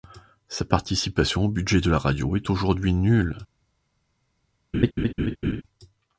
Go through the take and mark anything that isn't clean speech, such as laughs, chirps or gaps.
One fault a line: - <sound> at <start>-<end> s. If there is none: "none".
- laugh at 4.7-5.6 s